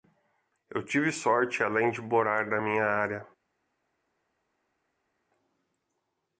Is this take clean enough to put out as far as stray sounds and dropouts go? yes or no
yes